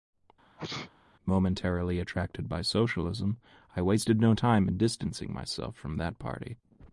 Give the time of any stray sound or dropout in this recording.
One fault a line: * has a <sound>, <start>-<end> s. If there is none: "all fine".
* has a sneeze, 0.6-0.9 s